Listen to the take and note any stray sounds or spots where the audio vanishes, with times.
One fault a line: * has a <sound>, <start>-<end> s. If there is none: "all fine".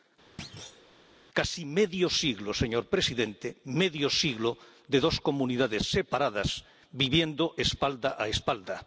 * has a thud, 0.4-0.9 s